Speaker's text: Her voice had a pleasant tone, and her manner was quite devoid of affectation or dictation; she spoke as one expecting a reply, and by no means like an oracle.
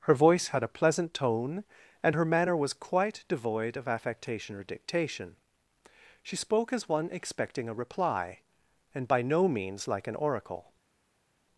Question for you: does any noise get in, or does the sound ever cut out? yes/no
no